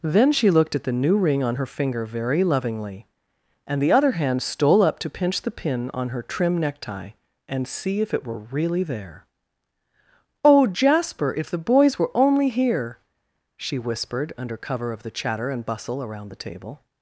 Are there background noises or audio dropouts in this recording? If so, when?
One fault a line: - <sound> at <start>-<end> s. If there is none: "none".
none